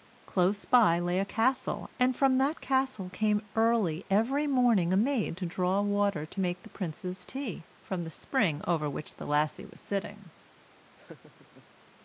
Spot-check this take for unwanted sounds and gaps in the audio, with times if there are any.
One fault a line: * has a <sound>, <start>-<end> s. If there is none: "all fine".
* has a laugh, 11.0-11.7 s